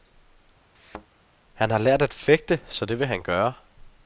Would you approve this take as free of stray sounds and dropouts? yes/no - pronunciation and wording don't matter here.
no